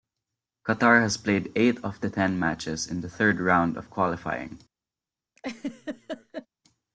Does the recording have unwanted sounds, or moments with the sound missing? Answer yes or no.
yes